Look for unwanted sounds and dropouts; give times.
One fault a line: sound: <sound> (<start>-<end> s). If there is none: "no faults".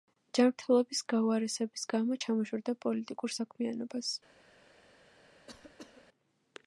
sound: cough (5.5-6.1 s)